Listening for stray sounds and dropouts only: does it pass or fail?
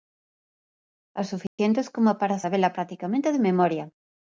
fail